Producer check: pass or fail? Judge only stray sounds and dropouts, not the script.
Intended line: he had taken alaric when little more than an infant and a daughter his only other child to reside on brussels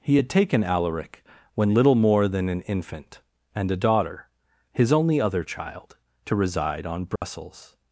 fail